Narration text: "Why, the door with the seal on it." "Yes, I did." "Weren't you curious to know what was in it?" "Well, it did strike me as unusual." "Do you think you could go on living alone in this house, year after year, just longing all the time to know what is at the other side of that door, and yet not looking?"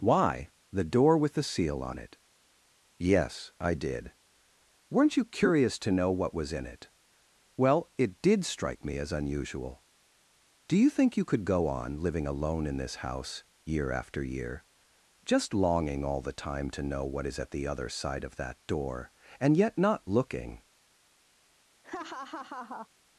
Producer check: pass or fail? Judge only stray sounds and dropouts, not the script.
fail